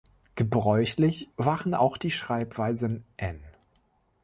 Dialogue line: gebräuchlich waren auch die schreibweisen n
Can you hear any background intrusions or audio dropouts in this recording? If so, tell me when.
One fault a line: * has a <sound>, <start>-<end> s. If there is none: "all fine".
all fine